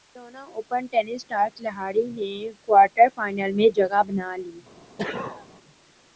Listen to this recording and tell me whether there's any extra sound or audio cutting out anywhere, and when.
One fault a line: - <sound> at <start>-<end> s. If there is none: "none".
- sneeze at 5.0-5.5 s